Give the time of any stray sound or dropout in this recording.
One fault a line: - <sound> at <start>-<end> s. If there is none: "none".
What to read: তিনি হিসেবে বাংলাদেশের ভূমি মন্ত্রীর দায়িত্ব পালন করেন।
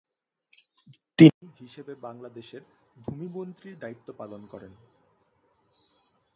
none